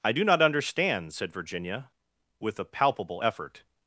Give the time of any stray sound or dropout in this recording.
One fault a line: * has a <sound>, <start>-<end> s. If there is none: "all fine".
all fine